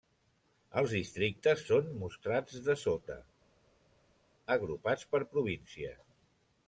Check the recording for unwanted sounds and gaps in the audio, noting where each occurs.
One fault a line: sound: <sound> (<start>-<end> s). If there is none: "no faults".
no faults